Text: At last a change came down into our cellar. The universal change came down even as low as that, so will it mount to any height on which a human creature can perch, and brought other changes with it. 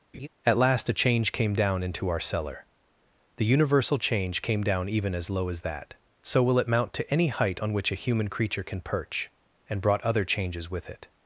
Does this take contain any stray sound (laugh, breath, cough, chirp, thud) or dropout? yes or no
yes